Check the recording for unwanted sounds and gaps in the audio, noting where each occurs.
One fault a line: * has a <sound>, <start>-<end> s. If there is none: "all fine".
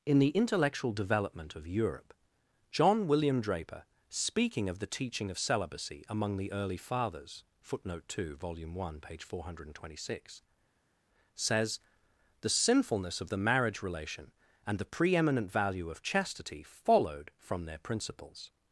all fine